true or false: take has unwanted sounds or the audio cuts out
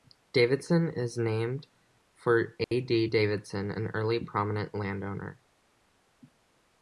true